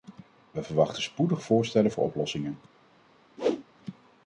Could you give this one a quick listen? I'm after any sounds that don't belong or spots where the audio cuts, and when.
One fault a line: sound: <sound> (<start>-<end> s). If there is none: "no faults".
sound: whoosh (3.4-3.6 s)